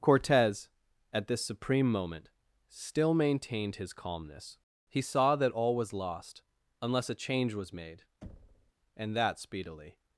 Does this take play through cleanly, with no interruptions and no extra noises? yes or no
no